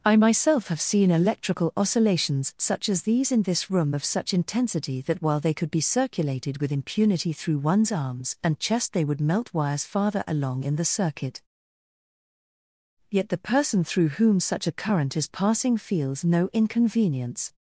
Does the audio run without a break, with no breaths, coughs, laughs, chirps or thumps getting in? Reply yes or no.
yes